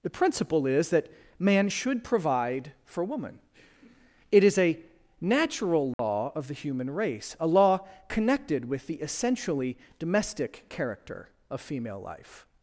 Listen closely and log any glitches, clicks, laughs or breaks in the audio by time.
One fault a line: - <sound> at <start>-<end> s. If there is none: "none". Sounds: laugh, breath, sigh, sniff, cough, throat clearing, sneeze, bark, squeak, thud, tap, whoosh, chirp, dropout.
- dropout at 5.9-6.0 s